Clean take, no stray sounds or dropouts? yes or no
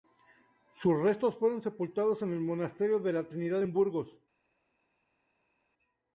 yes